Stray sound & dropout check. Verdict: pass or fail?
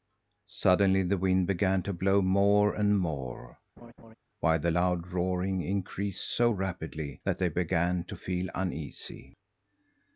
fail